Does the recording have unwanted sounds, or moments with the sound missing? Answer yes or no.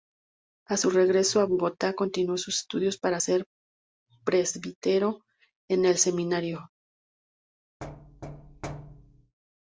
yes